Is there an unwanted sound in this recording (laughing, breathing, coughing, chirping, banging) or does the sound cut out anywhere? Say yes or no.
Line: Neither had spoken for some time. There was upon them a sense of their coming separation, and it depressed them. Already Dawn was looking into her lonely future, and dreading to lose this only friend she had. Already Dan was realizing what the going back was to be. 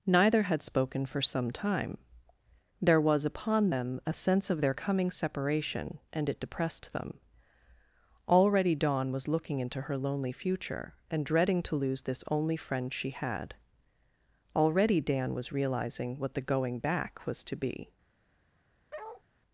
yes